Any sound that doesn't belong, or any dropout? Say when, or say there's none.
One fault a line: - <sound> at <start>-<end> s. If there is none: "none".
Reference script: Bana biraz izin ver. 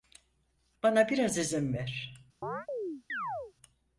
- chirp at 2.4-3.5 s